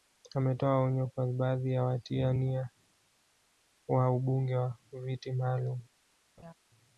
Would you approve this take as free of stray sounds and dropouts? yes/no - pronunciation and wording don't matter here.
no